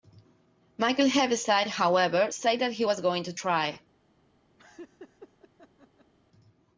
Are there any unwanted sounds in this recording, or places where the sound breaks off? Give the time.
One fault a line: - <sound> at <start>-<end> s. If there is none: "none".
- laugh at 4.6-6.1 s